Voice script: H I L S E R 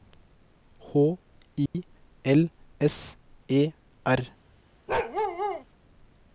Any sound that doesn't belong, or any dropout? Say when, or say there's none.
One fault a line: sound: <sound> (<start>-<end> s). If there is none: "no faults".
sound: dropout (1.7-1.7 s)
sound: bark (4.9-5.6 s)